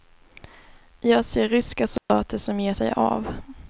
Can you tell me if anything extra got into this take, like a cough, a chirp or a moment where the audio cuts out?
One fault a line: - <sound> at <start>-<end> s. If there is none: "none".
- dropout at 2.0-2.1 s